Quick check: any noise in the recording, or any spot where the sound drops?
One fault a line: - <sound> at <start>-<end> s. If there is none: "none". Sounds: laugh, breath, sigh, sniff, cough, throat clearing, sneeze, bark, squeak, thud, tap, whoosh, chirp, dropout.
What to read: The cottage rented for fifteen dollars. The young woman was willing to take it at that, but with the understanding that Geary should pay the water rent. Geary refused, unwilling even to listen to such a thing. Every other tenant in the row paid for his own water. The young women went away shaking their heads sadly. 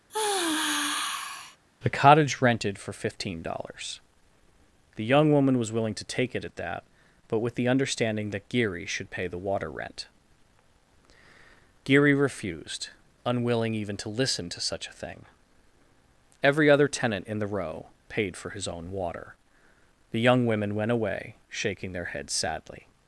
- sigh at 0.1-1.6 s